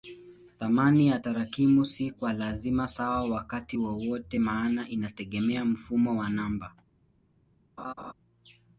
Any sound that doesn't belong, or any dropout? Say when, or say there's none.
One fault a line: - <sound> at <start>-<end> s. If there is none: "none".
- laugh at 7.8-8.1 s